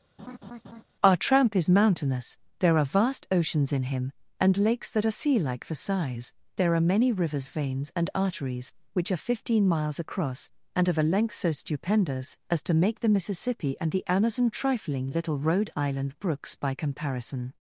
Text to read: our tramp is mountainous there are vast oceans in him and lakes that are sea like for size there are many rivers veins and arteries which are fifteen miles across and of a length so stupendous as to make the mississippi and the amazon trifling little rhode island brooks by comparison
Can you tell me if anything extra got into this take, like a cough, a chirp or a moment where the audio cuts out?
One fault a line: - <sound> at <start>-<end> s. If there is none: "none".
- laugh at 0.2-0.8 s